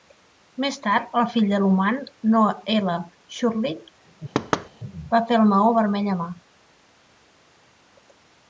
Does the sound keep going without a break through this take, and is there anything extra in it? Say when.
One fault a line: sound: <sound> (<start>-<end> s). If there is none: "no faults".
sound: thud (4.3-4.7 s)